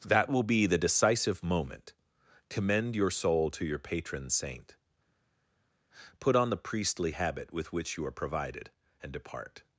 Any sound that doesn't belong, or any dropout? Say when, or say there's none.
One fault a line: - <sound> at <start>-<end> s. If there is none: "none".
none